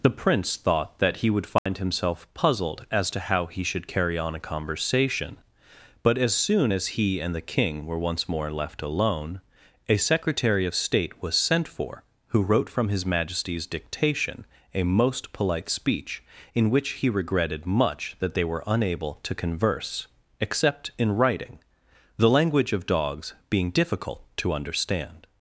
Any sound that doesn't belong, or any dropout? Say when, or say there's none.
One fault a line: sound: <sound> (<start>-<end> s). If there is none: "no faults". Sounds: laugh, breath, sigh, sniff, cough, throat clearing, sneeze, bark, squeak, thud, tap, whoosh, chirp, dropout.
sound: dropout (1.6-1.7 s)